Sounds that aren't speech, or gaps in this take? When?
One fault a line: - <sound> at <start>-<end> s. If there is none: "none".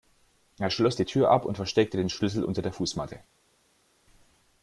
none